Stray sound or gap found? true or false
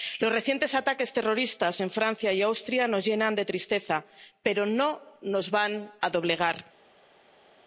false